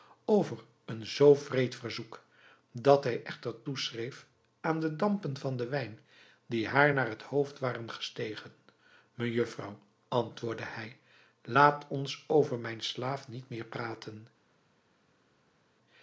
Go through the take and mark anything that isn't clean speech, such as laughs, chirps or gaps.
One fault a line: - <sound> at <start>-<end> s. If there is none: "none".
none